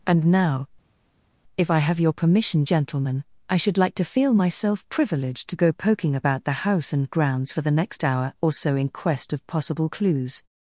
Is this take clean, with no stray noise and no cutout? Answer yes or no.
yes